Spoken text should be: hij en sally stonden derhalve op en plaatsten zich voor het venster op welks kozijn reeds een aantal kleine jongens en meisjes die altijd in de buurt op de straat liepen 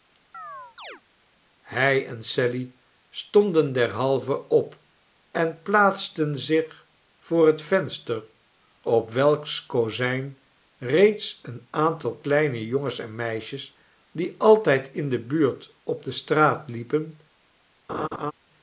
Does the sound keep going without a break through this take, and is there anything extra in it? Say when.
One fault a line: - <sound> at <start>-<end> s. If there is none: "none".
- chirp at 0.3-1.0 s
- laugh at 17.9-18.3 s